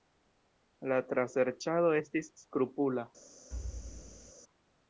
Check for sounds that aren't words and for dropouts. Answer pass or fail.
fail